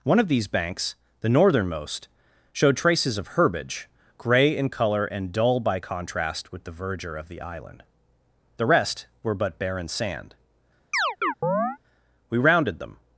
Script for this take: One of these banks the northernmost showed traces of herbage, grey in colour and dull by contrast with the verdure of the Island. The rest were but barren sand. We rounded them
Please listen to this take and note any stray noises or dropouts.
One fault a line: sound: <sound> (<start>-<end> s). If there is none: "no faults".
sound: chirp (10.9-11.8 s)